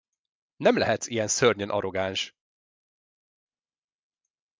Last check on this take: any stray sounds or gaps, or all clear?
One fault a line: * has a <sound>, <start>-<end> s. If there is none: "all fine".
all fine